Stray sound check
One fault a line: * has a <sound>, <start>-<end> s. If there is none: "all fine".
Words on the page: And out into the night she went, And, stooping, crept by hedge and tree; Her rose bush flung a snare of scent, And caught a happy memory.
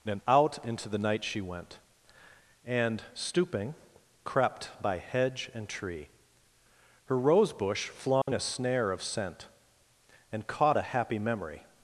* has a dropout, 8.2-8.3 s